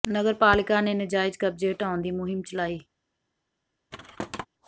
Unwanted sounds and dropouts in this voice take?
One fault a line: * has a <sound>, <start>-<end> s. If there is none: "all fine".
* has a thud, 3.9-4.5 s